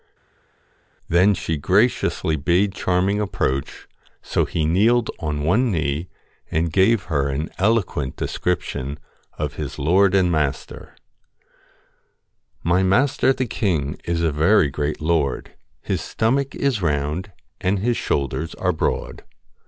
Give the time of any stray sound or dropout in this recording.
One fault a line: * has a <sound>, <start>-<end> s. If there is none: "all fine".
all fine